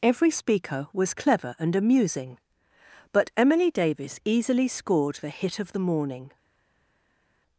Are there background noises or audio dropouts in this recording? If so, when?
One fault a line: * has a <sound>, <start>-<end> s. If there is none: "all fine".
all fine